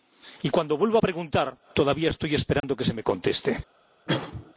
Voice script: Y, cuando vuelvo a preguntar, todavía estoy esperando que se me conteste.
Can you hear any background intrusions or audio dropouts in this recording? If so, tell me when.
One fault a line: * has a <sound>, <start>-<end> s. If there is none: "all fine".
* has a dropout, 2.6-2.6 s
* has a cough, 4.1-4.5 s